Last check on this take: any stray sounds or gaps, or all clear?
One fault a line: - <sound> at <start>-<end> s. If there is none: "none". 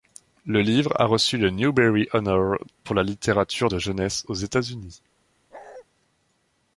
- bark at 5.5-5.8 s